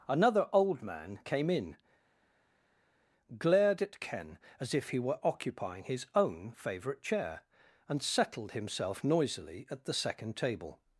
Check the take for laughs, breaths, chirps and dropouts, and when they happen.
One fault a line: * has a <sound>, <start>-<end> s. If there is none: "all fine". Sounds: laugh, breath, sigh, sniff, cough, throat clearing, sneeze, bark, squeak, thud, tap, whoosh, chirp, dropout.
all fine